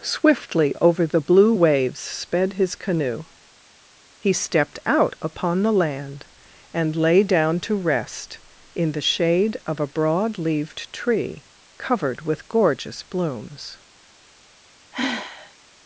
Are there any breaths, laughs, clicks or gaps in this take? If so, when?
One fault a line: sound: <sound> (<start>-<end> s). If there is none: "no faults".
sound: sigh (14.9-15.5 s)